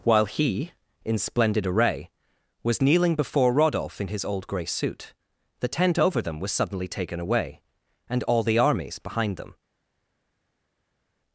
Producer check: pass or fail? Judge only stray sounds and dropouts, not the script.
pass